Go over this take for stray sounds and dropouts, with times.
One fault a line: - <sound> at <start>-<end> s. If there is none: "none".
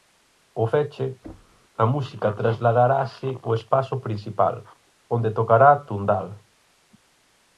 - thud at 1.2-1.6 s